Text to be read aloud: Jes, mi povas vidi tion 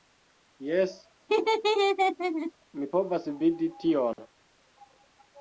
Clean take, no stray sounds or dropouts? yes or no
no